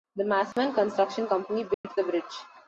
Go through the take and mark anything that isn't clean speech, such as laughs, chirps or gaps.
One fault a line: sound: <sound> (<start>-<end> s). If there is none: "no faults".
sound: dropout (0.5-0.6 s)
sound: dropout (1.7-1.8 s)